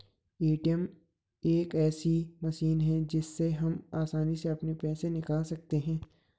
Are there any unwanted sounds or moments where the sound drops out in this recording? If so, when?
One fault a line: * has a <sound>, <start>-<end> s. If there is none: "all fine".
all fine